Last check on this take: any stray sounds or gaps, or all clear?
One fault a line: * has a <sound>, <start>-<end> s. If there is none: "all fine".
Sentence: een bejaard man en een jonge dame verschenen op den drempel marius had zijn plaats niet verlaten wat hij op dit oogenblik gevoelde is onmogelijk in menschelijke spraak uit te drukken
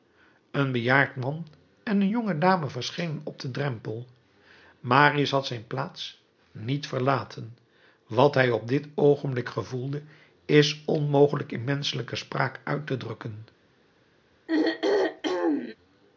* has a throat clearing, 14.5-15.8 s